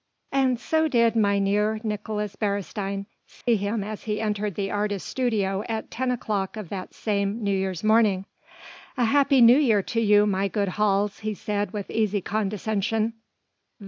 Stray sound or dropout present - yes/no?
yes